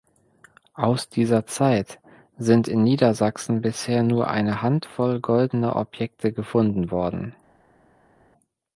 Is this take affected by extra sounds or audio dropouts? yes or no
no